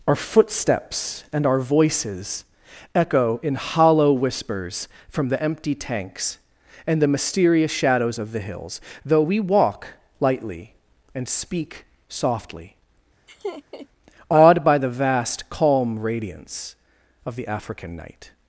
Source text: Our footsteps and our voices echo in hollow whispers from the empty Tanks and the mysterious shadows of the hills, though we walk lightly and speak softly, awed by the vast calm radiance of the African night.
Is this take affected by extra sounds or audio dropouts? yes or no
yes